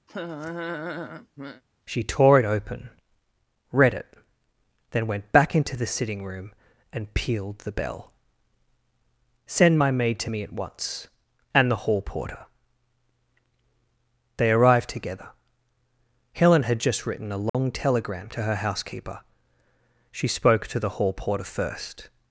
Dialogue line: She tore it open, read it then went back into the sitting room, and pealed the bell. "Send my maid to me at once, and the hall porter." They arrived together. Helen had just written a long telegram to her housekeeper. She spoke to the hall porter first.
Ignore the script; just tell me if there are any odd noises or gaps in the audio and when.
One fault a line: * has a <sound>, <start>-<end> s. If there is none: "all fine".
* has a laugh, 0.1-1.6 s
* has a dropout, 17.5-17.5 s